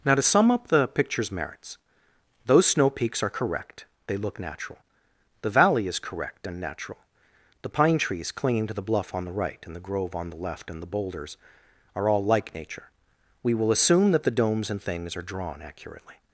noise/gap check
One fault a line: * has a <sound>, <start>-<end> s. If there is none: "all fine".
all fine